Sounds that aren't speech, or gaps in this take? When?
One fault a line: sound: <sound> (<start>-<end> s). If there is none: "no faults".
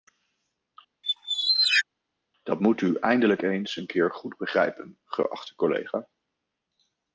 sound: squeak (1.0-1.8 s)